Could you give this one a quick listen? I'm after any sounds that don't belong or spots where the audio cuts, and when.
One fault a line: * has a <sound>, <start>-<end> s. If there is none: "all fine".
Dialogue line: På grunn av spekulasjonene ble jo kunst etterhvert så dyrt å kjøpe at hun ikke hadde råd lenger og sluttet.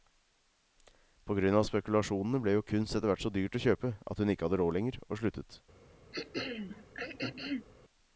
* has a throat clearing, 6.1-7.7 s